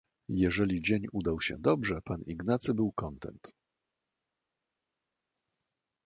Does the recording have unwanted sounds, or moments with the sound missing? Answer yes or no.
no